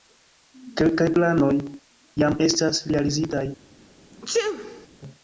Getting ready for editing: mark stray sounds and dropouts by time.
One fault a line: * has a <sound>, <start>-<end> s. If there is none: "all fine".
* has a sneeze, 4.1-4.9 s